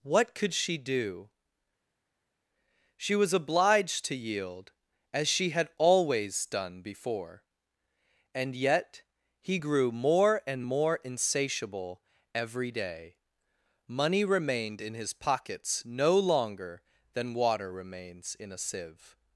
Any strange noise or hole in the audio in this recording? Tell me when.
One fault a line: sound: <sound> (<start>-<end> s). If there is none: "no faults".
no faults